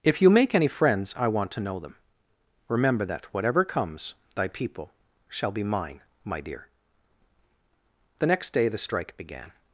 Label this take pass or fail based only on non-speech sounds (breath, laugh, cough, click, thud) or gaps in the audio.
pass